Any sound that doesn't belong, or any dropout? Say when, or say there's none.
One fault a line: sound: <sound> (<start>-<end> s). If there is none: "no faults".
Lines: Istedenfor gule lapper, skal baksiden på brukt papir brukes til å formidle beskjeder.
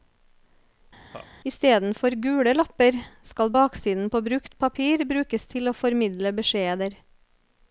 sound: laugh (1.1-1.3 s)